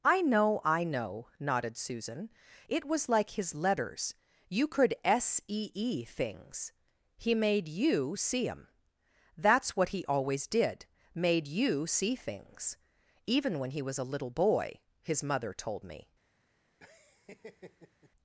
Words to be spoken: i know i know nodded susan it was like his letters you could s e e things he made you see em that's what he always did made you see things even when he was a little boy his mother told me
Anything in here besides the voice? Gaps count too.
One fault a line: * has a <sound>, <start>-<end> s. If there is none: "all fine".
* has a laugh, 16.8-18.1 s